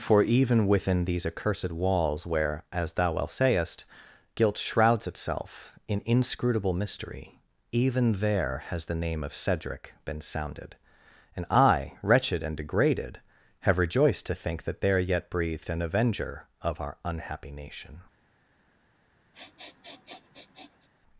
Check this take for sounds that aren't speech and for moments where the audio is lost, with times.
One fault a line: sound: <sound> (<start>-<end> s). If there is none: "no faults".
sound: sniff (19.3-20.9 s)